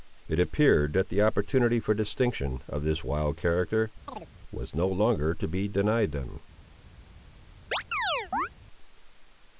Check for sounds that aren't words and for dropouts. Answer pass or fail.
fail